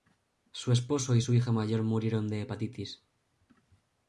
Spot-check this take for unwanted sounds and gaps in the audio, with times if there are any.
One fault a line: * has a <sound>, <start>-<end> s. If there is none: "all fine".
all fine